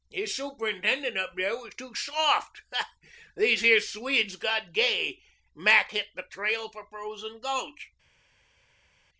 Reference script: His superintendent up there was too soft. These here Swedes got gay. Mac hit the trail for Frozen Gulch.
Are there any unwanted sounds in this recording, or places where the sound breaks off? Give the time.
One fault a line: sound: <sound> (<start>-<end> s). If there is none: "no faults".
no faults